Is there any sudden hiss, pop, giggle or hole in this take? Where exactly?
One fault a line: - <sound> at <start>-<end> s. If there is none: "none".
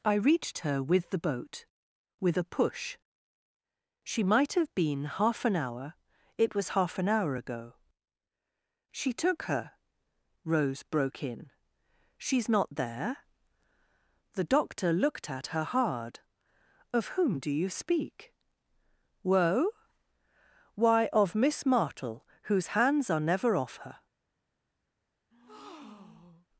- breath at 25.3-26.5 s